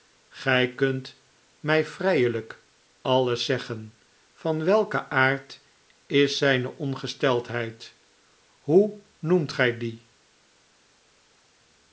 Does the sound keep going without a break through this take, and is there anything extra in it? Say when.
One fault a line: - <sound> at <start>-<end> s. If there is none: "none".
none